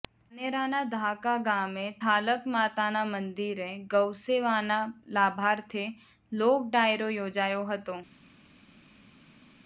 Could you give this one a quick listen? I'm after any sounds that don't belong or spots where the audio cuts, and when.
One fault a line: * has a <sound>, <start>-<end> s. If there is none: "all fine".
all fine